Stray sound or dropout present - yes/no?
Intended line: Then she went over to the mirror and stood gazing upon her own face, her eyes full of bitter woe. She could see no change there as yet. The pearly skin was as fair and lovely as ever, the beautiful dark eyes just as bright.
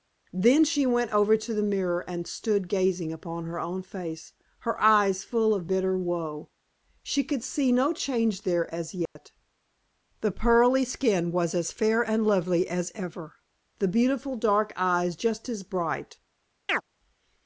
yes